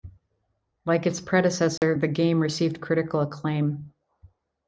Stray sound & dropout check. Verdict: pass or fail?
fail